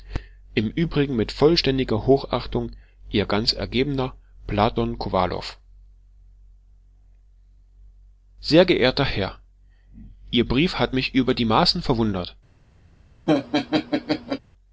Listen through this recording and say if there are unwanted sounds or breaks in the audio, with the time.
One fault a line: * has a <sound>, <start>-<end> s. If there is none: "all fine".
* has a laugh, 13.3-14.4 s